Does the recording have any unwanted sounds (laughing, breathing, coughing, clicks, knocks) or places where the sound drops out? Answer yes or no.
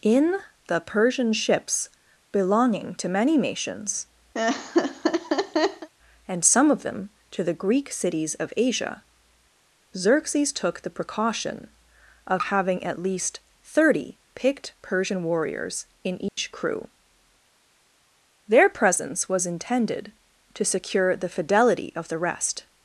yes